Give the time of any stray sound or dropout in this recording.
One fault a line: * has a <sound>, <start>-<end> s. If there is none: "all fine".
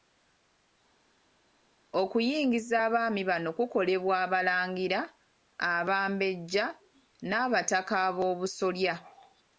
all fine